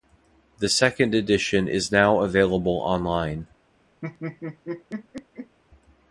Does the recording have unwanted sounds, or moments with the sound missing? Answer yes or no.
yes